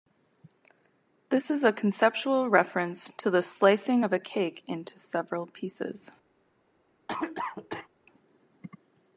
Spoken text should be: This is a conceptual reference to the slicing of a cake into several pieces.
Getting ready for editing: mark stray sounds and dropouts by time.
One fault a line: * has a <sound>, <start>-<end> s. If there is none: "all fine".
* has a cough, 7.1-7.9 s